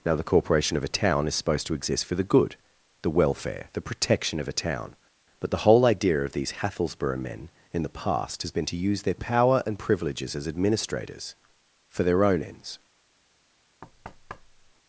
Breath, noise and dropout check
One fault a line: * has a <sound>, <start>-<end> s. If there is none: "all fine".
* has a thud, 13.8-14.7 s